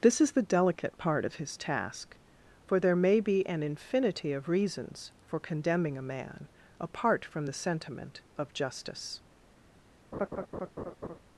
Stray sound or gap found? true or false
true